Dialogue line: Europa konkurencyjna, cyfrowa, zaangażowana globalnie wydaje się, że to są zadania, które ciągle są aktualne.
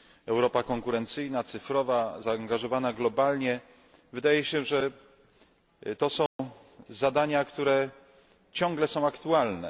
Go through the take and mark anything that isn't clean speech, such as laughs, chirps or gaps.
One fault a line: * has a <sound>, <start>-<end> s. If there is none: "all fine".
* has a dropout, 6.3-6.4 s